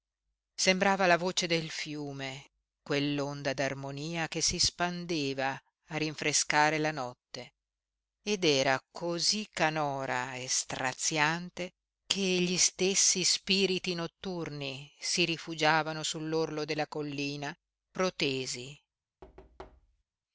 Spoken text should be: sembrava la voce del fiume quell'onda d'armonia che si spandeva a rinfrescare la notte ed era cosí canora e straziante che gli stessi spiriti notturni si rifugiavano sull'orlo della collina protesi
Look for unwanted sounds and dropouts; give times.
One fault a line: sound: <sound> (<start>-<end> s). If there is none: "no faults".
sound: thud (19.2-20.0 s)